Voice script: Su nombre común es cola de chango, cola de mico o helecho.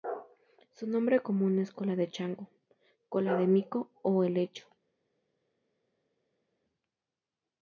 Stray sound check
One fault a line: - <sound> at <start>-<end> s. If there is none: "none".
none